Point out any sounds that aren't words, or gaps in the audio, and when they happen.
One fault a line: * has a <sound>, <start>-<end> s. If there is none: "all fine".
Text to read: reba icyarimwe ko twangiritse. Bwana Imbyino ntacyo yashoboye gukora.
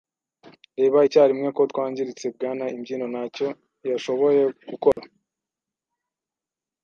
* has a dropout, 4.9-5.0 s